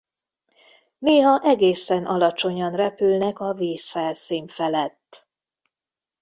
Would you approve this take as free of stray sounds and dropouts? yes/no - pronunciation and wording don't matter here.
yes